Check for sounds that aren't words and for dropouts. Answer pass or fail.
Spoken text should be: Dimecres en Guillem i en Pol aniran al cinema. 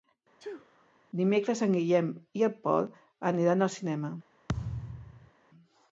fail